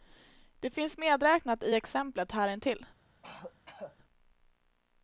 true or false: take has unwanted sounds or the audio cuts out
true